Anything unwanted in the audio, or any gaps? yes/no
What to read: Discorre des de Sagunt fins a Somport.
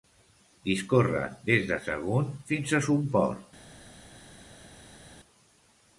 no